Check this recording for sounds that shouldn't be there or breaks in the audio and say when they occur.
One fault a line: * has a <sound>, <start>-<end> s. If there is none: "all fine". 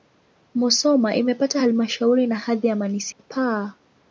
* has a dropout, 3.1-3.2 s